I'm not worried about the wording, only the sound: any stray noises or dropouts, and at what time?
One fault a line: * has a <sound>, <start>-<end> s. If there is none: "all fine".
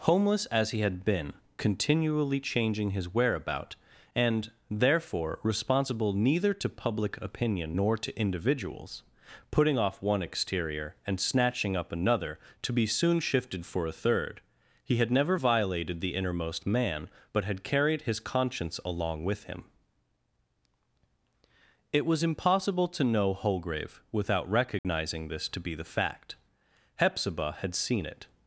* has a dropout, 24.8-24.8 s